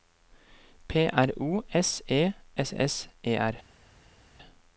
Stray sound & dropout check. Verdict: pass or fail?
pass